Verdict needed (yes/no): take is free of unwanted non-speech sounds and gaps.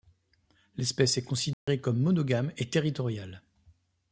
no